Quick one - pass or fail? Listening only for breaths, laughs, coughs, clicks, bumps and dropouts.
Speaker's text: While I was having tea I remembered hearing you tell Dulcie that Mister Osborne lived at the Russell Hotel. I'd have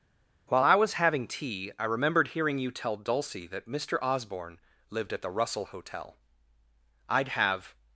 pass